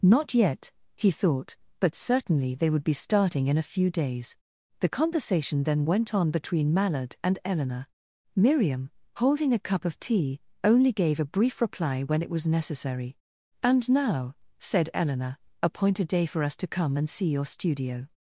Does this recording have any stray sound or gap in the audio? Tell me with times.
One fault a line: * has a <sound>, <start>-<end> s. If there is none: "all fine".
all fine